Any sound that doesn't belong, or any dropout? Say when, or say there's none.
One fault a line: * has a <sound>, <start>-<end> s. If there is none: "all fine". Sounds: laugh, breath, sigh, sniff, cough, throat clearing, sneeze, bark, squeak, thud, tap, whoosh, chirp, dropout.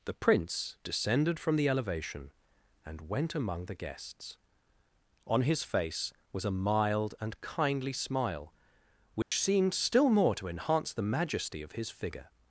* has a dropout, 9.2-9.3 s